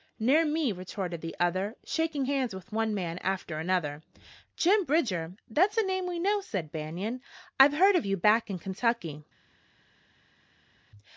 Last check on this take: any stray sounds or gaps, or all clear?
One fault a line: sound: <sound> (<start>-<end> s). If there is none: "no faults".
no faults